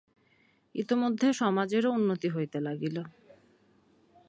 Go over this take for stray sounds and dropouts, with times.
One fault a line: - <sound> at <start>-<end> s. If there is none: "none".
none